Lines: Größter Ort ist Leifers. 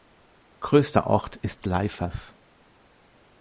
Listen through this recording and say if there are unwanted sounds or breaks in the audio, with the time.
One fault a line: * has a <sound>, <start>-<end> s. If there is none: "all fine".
all fine